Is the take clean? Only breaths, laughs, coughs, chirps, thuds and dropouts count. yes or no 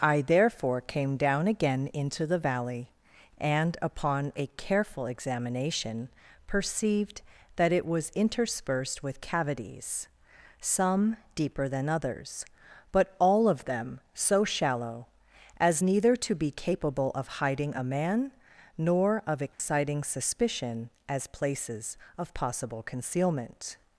no